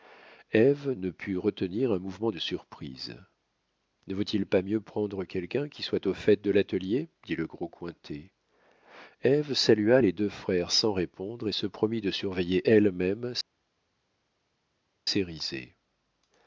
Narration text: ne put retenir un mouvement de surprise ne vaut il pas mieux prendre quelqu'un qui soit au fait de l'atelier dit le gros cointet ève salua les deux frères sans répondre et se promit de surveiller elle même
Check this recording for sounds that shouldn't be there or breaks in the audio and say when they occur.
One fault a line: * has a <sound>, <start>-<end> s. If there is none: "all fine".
all fine